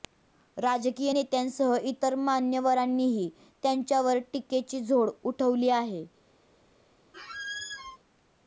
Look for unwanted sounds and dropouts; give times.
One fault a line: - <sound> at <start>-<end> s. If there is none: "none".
- squeak at 7.1-8.0 s